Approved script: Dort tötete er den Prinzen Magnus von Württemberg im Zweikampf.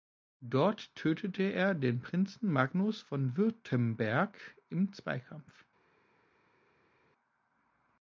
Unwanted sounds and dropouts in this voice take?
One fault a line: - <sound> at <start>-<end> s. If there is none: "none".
none